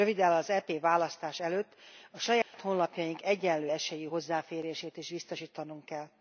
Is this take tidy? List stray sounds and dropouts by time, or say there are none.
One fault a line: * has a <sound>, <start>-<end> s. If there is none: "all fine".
* has a dropout, 2.4-2.5 s